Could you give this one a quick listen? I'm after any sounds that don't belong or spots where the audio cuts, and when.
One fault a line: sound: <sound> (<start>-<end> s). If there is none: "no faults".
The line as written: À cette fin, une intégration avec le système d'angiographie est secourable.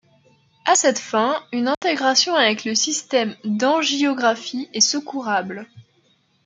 sound: dropout (1.7-1.8 s)